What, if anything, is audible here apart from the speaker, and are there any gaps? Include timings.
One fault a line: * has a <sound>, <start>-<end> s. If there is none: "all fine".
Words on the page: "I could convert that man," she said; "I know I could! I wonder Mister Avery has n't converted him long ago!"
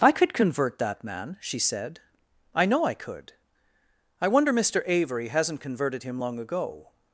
all fine